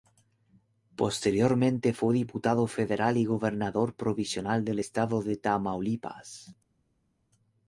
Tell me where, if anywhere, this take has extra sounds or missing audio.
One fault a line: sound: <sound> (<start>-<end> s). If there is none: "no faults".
no faults